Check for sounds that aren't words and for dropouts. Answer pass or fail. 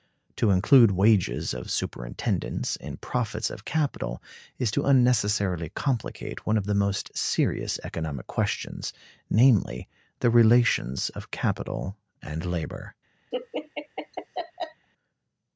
fail